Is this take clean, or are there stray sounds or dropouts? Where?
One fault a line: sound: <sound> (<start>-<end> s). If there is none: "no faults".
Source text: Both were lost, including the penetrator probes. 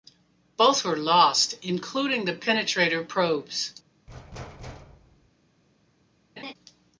sound: thud (4.1-5.3 s)
sound: laugh (6.4-6.5 s)